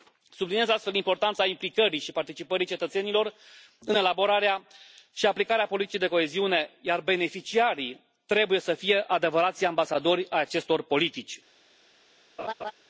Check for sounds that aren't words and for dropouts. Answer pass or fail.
fail